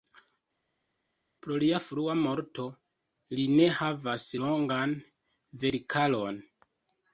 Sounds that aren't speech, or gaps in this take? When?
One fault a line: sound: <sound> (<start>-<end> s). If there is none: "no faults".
no faults